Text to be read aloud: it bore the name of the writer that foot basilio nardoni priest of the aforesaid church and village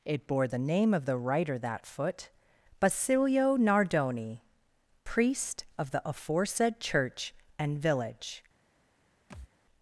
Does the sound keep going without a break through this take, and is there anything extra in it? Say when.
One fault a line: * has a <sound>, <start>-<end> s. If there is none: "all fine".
* has a thud, 9.3-9.5 s